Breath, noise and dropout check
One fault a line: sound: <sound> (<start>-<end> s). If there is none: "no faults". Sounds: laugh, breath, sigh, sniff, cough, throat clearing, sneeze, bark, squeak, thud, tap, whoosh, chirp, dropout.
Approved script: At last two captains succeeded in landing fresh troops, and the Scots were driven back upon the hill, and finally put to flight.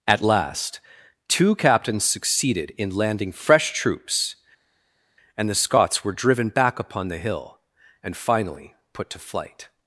no faults